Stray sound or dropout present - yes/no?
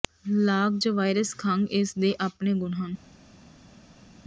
no